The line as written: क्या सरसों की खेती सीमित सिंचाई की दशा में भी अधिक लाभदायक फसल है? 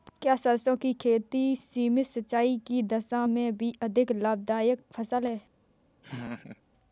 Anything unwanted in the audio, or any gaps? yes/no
yes